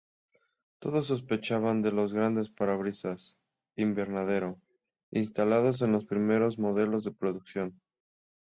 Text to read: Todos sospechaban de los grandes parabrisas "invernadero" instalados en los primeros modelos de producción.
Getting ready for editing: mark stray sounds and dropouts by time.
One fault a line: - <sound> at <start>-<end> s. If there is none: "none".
none